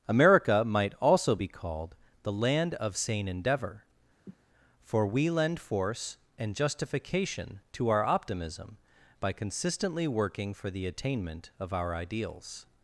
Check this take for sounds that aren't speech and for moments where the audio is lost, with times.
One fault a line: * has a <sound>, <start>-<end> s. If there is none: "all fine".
* has a cough, 4.3-4.4 s